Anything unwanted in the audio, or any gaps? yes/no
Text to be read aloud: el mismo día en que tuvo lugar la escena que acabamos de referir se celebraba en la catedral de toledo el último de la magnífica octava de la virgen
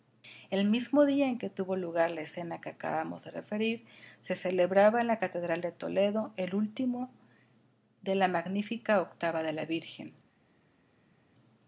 no